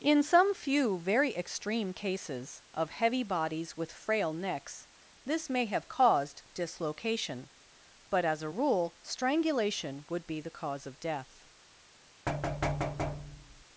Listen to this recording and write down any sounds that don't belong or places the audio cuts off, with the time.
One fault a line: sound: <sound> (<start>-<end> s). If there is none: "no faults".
sound: thud (12.3-13.6 s)